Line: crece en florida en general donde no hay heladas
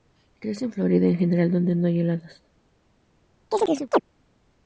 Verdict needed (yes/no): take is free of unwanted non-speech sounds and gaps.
no